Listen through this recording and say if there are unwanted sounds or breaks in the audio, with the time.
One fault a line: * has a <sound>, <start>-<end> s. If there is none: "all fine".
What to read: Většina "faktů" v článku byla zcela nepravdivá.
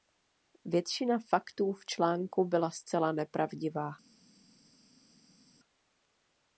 all fine